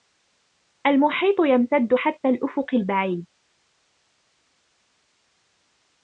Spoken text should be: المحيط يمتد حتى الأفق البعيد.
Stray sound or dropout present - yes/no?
no